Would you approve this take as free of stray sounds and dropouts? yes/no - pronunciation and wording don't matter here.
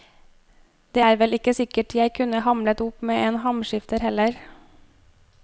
yes